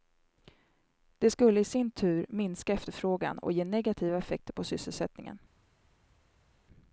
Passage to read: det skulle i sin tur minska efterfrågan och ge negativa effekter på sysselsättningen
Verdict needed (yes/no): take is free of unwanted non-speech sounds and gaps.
yes